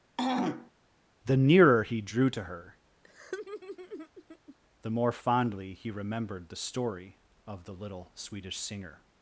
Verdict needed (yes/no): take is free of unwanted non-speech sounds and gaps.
no